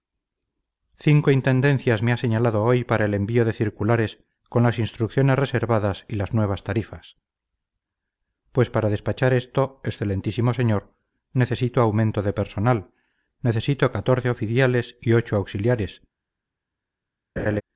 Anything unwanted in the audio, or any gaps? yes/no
yes